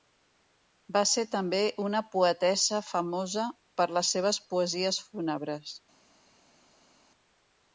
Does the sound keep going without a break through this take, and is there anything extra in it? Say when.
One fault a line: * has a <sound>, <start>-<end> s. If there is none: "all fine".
all fine